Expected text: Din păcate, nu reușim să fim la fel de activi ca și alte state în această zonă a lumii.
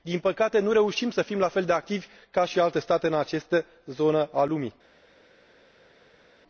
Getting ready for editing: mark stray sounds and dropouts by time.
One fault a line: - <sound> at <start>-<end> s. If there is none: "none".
none